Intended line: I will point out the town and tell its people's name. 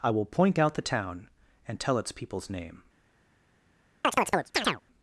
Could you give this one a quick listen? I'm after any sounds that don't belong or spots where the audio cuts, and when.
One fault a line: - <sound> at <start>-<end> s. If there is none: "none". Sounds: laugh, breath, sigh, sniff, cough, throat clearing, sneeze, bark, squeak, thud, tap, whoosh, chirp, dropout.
- chirp at 4.0-4.8 s